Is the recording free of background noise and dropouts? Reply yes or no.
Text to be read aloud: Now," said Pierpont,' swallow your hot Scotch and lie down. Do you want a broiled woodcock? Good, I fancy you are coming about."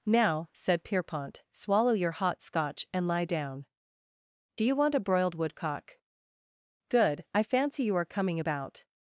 yes